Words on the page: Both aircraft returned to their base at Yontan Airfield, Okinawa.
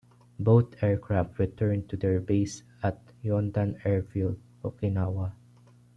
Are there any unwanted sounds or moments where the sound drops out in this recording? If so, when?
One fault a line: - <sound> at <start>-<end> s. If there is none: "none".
none